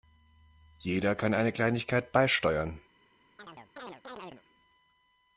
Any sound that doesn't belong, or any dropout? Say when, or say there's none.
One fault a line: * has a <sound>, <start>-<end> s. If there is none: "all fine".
* has a chirp, 3.4-4.4 s